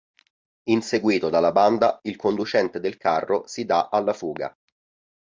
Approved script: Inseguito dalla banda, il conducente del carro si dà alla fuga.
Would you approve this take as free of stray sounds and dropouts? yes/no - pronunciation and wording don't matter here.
yes